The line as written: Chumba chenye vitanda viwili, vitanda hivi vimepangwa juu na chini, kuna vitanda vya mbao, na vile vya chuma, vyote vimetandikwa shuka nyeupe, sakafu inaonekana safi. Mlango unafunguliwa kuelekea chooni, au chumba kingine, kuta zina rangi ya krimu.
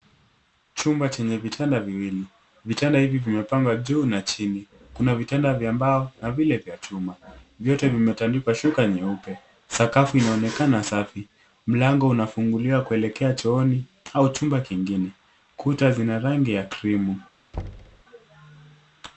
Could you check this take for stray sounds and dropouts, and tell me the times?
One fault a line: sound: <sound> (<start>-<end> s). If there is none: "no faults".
sound: thud (17.5-18.0 s)